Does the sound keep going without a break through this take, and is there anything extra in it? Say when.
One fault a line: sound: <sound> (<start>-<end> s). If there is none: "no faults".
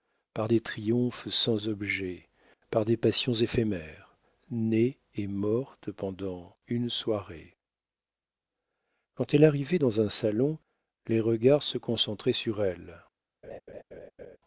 sound: laugh (13.4-14.4 s)